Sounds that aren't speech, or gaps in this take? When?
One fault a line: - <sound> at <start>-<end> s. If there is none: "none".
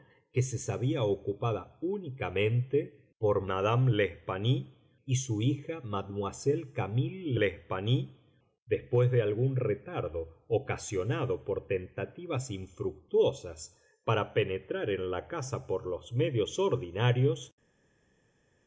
none